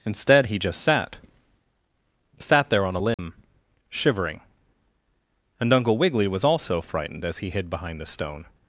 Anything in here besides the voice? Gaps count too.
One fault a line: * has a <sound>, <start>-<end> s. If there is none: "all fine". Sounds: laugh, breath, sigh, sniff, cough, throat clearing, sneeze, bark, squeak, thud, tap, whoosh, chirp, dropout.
* has a dropout, 3.1-3.2 s